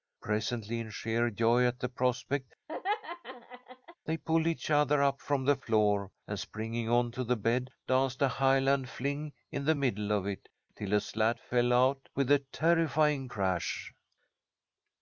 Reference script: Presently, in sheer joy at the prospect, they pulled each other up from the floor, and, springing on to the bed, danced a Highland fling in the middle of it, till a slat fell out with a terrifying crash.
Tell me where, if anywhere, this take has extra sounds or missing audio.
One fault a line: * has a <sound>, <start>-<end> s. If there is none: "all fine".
* has a laugh, 2.7-4.0 s